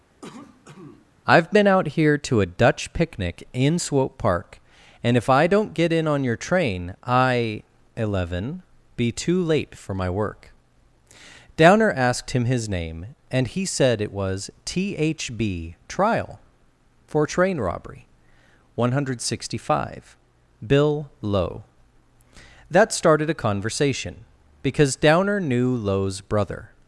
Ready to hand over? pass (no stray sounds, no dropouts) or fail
fail